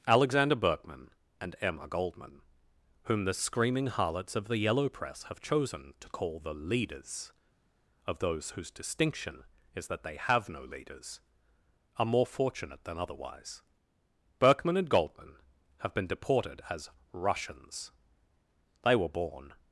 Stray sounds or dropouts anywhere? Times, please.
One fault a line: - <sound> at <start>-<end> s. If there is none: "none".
none